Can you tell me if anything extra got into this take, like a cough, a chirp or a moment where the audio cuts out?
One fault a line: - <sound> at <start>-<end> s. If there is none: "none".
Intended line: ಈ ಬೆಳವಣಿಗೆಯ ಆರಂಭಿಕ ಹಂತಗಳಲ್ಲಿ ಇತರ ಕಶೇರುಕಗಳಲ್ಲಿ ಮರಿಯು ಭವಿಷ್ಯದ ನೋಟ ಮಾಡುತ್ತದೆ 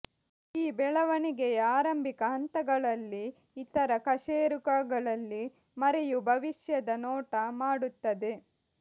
none